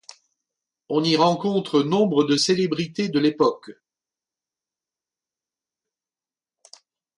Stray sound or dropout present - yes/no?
no